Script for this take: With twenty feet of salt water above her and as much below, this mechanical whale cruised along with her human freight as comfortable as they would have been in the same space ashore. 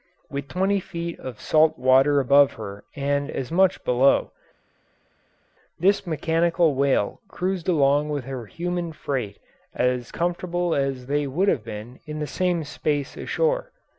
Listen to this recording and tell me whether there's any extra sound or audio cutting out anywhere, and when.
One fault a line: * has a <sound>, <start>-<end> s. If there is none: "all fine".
all fine